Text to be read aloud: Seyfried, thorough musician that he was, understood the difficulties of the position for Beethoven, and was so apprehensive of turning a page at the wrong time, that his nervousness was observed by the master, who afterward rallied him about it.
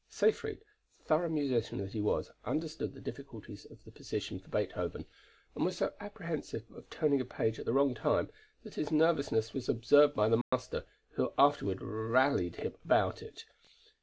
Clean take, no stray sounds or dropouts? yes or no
no